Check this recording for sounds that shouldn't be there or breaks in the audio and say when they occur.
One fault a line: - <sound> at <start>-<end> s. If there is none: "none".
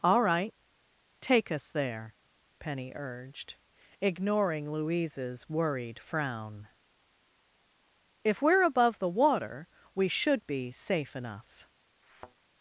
- thud at 12.0-12.3 s